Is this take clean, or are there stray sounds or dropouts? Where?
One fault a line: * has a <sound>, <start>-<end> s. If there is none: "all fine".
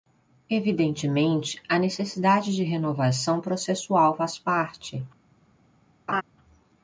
* has a laugh, 6.1-6.2 s